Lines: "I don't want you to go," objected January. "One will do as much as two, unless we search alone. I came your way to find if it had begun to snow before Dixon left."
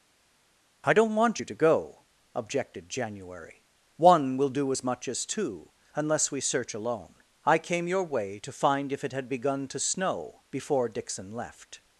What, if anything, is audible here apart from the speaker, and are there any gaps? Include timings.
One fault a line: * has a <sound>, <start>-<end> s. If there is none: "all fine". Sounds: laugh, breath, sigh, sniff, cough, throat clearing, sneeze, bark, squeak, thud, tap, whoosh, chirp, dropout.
all fine